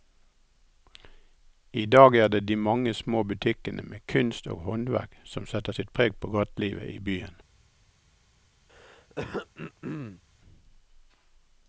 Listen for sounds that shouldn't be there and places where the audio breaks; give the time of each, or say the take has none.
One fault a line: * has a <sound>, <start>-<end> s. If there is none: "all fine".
* has a throat clearing, 8.7-10.2 s